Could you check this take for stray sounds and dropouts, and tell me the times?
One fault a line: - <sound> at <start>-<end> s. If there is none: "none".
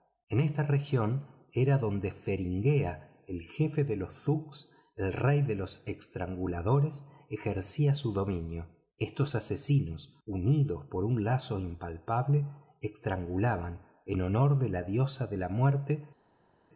none